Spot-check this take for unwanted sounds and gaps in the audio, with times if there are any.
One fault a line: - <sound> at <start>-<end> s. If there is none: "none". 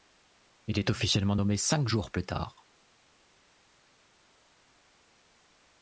none